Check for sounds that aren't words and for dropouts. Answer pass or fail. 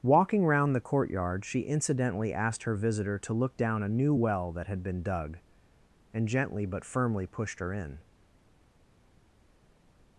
pass